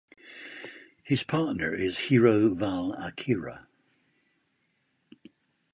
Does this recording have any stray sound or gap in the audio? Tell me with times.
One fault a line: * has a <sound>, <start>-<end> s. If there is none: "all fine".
all fine